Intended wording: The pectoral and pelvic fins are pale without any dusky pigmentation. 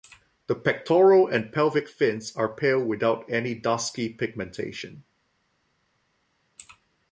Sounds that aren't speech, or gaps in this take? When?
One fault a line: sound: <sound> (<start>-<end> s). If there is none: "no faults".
no faults